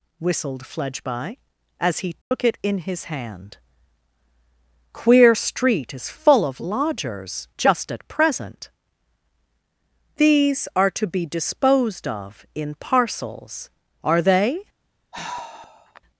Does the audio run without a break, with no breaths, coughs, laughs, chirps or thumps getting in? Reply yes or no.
no